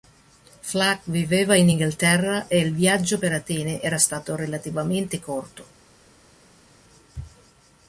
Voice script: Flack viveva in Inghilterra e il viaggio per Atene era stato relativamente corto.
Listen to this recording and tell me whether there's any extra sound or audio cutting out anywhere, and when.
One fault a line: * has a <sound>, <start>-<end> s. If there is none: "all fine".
all fine